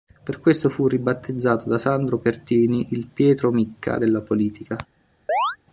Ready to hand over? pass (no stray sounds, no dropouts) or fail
fail